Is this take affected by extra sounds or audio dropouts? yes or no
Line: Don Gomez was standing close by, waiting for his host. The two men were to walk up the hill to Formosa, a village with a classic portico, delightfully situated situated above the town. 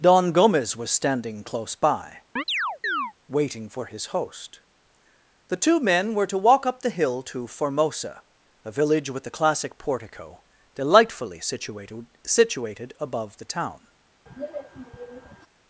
yes